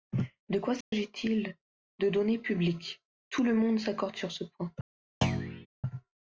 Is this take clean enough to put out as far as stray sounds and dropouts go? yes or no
no